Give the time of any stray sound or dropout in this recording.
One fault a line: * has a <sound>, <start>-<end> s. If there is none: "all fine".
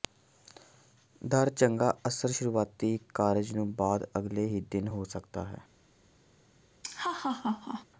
* has a laugh, 6.8-7.9 s